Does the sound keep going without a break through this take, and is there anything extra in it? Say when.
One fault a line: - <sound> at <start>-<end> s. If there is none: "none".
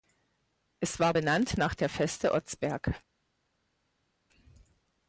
none